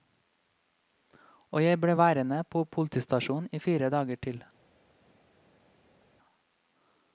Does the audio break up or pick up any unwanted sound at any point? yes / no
no